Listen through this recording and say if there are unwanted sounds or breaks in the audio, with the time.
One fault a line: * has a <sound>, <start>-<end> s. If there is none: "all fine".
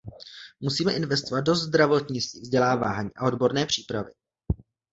all fine